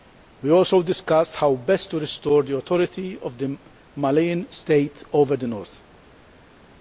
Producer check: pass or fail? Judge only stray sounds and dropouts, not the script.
pass